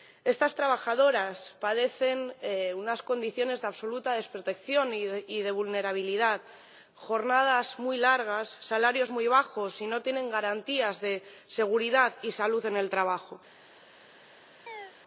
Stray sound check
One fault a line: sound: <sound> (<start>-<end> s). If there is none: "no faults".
sound: chirp (14.7-14.9 s)